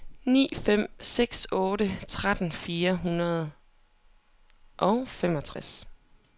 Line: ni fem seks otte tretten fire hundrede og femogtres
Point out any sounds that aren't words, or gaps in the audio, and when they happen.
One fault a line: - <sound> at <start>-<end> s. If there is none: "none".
none